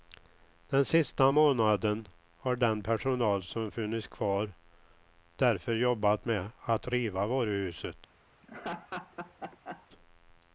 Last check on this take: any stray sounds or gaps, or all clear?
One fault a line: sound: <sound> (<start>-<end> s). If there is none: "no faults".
sound: laugh (8.4-9.9 s)